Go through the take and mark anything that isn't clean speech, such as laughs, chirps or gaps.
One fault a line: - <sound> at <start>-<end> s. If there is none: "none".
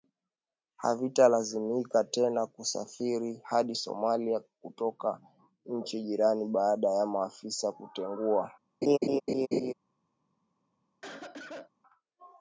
- laugh at 8.8-9.7 s
- cough at 11.0-11.7 s